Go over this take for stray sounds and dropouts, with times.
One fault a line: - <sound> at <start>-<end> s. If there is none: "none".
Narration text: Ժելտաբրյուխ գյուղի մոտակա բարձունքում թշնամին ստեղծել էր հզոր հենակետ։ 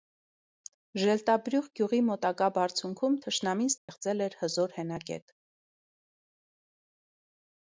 - dropout at 3.8-3.9 s